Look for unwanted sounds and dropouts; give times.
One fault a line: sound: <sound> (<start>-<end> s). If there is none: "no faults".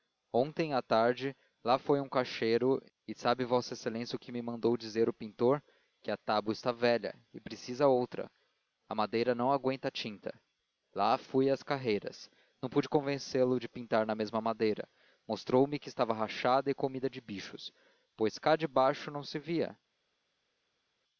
no faults